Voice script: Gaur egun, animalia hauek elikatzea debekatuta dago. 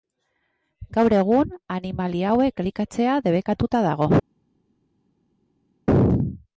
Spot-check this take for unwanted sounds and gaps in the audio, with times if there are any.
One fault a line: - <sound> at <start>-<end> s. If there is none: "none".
none